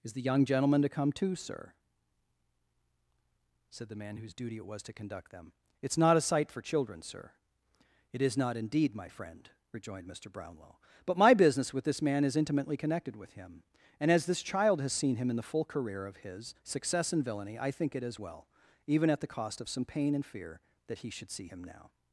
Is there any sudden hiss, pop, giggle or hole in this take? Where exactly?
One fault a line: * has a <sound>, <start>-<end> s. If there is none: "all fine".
all fine